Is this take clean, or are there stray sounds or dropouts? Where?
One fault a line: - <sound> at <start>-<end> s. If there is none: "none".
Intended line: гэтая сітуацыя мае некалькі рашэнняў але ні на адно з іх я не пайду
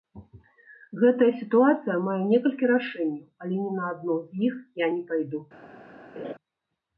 - laugh at 6.2-6.3 s